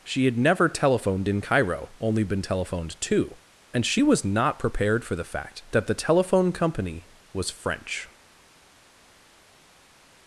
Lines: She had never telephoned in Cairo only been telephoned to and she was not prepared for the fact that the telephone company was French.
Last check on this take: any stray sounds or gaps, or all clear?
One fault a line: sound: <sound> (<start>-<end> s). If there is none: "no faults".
no faults